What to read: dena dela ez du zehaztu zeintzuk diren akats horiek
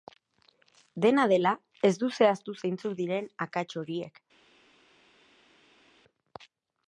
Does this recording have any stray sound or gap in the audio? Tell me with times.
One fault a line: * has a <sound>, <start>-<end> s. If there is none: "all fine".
all fine